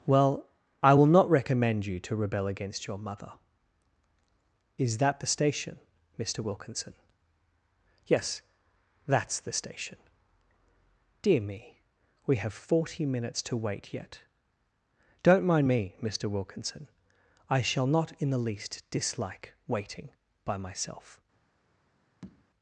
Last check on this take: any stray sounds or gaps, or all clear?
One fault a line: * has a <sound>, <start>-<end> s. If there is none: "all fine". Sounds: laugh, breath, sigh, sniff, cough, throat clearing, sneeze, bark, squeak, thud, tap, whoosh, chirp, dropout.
* has a tap, 22.2-22.5 s